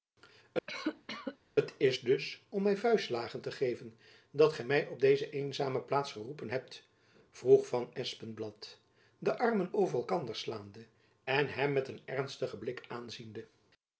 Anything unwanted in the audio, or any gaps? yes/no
yes